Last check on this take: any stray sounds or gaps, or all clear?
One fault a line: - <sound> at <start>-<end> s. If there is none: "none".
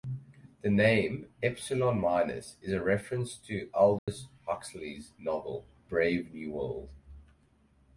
- dropout at 4.0-4.1 s